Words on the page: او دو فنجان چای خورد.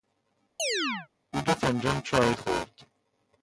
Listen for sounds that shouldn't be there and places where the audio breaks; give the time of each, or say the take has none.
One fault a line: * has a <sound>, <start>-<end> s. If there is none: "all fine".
* has a chirp, 0.6-1.1 s